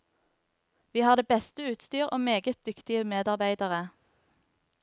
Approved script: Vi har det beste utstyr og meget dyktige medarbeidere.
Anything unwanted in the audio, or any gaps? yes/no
no